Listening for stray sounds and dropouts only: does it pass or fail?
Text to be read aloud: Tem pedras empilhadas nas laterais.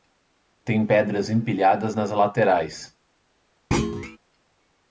fail